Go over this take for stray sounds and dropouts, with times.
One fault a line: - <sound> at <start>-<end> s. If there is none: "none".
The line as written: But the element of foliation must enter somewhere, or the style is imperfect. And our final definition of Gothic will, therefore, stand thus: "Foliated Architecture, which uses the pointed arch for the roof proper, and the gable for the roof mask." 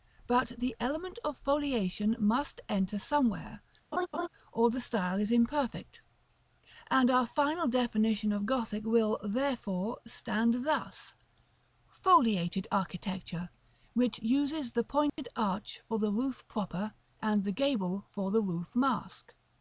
- laugh at 3.9-4.3 s
- dropout at 15.1-15.2 s